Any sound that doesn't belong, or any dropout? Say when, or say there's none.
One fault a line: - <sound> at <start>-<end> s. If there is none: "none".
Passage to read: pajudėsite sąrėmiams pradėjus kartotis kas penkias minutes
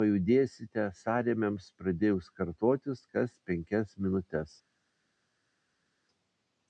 none